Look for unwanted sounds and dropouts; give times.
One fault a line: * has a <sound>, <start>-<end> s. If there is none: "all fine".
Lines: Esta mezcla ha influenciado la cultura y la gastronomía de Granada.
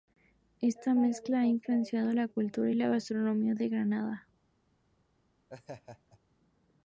* has a laugh, 5.5-6.2 s